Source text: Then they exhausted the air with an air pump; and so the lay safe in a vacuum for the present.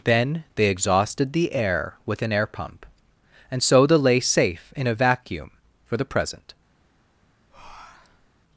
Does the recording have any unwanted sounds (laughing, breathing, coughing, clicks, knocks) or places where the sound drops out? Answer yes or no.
yes